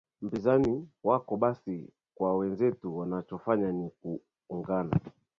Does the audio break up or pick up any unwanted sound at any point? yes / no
no